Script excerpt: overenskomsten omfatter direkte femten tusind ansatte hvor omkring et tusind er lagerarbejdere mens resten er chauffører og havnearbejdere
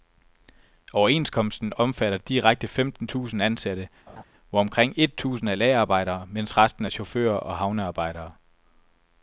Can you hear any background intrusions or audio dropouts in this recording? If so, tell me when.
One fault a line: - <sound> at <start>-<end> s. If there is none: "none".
- laugh at 4.1-4.2 s